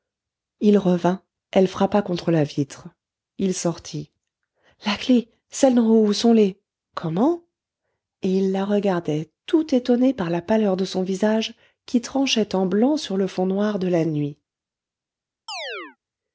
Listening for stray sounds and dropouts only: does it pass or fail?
fail